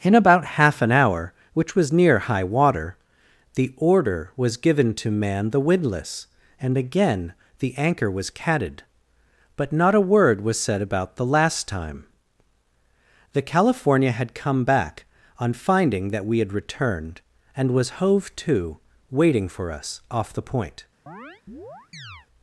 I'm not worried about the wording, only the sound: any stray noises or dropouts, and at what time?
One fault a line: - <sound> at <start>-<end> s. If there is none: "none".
- chirp at 21.1-22.3 s